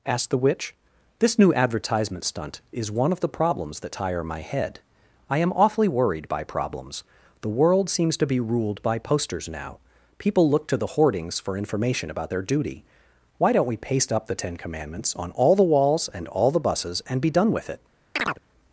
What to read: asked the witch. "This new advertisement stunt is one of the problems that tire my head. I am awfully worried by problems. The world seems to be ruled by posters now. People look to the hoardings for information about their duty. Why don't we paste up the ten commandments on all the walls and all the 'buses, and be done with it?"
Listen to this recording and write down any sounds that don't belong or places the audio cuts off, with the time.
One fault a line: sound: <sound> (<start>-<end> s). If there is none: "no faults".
sound: chirp (18.2-18.4 s)